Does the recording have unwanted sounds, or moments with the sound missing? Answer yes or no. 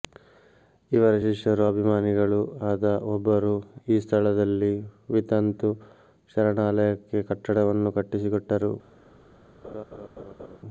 yes